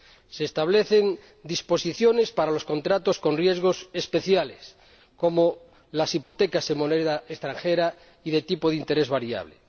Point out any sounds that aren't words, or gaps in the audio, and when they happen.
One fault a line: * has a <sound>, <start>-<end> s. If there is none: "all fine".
* has a dropout, 6.2-6.4 s